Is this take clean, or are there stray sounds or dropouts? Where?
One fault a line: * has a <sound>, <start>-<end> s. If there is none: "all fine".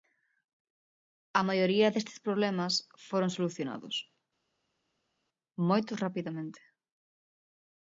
all fine